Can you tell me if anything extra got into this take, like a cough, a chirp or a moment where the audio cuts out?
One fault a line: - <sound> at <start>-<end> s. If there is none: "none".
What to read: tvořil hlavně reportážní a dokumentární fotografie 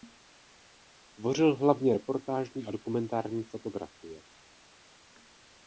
none